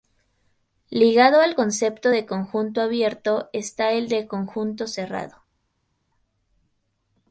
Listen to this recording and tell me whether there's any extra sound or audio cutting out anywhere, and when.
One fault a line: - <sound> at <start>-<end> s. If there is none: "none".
none